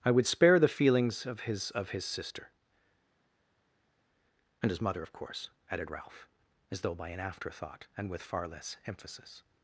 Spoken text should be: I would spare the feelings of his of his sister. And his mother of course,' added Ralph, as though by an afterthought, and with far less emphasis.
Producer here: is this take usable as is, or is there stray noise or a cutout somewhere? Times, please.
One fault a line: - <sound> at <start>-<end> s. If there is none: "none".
none